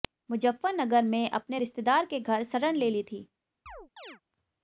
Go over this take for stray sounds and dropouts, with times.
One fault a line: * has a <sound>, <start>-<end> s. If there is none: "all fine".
* has a chirp, 3.7-4.2 s